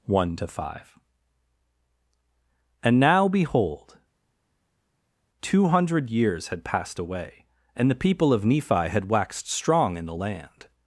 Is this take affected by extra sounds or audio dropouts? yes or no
no